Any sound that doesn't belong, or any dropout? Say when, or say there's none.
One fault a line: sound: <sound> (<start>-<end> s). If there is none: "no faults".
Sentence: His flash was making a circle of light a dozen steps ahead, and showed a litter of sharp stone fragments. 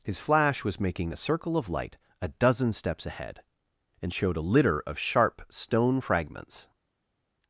no faults